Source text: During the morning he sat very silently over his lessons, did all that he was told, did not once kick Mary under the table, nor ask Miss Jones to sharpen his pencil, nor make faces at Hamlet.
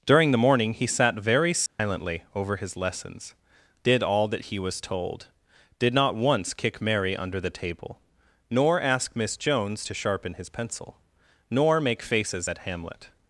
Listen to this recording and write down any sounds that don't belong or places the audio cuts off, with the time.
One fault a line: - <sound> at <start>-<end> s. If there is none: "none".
- dropout at 1.7-1.8 s